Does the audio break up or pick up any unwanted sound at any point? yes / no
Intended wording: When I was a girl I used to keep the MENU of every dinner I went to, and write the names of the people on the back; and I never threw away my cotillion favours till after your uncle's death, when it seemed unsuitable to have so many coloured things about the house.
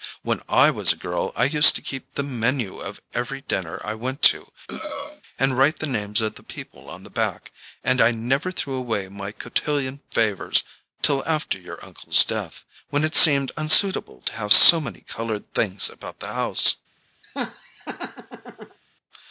yes